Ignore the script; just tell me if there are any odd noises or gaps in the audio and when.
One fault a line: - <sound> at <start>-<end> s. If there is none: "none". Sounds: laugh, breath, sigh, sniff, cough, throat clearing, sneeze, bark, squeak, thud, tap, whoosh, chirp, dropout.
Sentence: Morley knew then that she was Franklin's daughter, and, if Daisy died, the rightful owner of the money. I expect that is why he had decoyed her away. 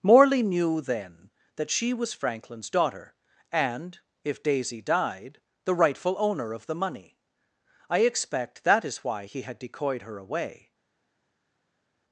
none